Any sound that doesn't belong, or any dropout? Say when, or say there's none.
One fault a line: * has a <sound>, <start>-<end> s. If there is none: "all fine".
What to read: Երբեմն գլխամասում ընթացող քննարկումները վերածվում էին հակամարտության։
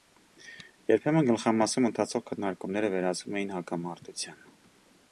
all fine